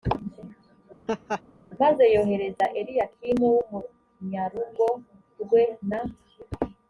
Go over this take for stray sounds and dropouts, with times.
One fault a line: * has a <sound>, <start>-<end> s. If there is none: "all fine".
* has a laugh, 1.1-1.4 s